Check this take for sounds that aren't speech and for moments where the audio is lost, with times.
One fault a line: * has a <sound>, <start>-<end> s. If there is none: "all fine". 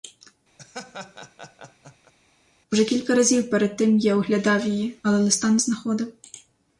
* has a laugh, 0.6-2.1 s